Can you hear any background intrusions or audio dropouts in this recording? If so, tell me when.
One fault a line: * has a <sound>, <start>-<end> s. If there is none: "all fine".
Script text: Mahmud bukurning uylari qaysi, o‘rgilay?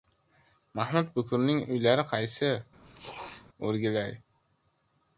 * has a throat clearing, 2.8-3.5 s